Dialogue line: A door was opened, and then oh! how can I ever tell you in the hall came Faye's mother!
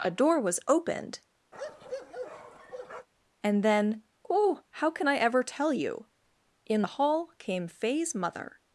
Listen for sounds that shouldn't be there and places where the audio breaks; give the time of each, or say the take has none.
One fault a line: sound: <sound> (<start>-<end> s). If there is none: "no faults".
sound: bark (1.5-3.1 s)